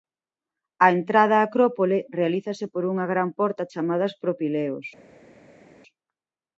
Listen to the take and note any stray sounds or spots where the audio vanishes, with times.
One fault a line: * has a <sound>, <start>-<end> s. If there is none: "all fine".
all fine